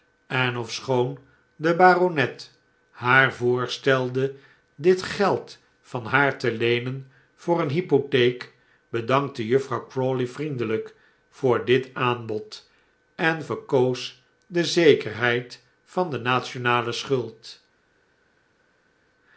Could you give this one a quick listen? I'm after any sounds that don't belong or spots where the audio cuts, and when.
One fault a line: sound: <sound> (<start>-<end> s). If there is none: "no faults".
no faults